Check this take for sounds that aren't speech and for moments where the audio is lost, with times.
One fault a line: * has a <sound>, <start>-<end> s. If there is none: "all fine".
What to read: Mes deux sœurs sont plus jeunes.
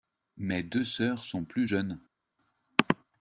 all fine